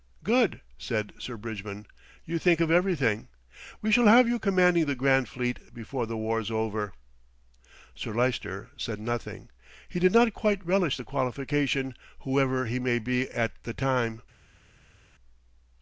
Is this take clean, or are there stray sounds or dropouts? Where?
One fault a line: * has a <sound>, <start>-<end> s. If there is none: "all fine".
all fine